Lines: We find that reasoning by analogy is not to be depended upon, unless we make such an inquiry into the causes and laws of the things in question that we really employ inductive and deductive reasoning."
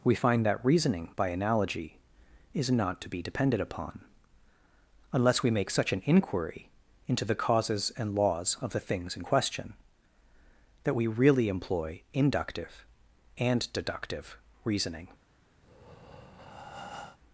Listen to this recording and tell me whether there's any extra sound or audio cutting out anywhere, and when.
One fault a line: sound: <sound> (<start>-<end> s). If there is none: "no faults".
sound: breath (15.6-17.2 s)